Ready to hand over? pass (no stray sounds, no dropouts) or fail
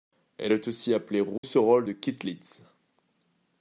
fail